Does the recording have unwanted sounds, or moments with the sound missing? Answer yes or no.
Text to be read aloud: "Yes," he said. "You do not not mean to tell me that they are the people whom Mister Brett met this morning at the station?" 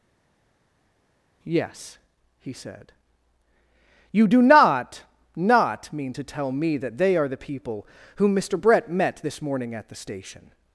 no